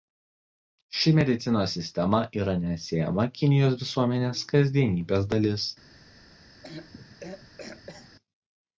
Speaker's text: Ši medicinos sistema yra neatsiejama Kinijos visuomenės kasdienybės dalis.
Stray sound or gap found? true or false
true